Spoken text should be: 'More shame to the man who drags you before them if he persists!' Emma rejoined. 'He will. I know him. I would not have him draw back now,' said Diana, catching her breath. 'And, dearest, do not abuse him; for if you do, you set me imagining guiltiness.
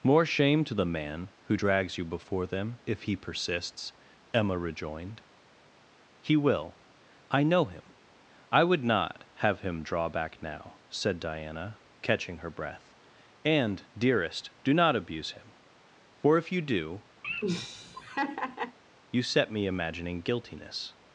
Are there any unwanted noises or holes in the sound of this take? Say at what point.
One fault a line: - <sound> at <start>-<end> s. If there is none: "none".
- laugh at 17.2-18.8 s